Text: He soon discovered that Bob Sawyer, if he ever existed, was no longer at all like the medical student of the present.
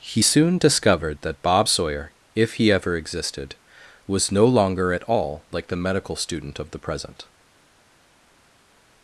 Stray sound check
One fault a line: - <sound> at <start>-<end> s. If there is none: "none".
none